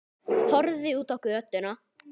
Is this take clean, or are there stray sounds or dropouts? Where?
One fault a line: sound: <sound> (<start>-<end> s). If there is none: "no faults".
no faults